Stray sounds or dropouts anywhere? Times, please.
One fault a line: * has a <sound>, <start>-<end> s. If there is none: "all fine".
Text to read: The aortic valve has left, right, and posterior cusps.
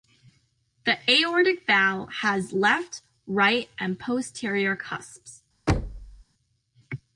* has a thud, 5.7-6.2 s